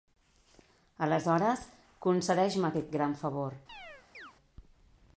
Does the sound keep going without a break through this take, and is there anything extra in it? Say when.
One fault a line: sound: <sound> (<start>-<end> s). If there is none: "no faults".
sound: chirp (3.7-4.3 s)